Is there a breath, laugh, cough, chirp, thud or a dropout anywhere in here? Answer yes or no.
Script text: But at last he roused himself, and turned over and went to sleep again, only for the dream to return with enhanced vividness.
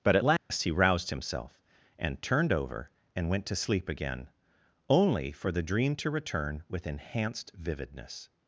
yes